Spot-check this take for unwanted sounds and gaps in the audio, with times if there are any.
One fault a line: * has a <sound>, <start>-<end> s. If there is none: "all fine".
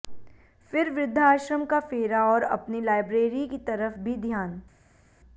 all fine